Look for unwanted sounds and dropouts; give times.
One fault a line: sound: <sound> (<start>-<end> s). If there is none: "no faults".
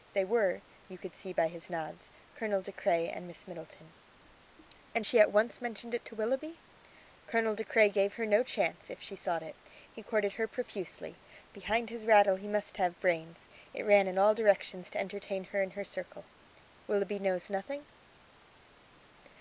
no faults